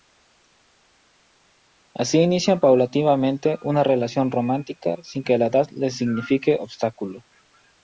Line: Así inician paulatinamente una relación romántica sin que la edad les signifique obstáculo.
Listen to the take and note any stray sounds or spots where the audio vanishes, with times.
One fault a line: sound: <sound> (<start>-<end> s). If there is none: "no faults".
no faults